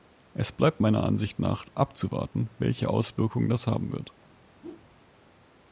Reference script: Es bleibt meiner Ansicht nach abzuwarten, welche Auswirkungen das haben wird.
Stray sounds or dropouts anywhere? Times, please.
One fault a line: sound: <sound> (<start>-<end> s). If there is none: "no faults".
sound: whoosh (4.6-4.9 s)